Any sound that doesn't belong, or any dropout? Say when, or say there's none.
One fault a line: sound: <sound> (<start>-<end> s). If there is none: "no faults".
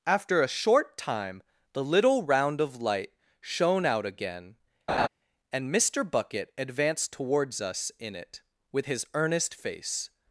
sound: laugh (4.9-5.1 s)